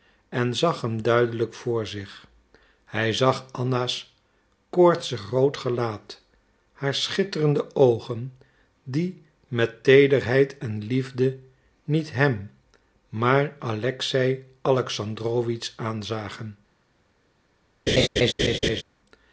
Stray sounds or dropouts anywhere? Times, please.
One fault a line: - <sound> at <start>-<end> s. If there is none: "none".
- laugh at 17.9-18.8 s